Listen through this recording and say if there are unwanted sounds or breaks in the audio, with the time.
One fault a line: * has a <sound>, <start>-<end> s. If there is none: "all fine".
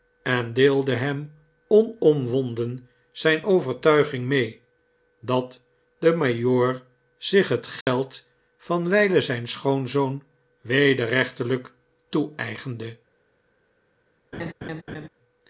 * has a dropout, 7.8-7.9 s
* has a laugh, 14.3-15.1 s